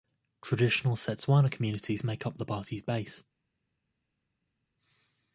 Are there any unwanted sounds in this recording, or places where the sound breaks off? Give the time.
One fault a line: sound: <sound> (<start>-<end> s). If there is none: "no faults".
no faults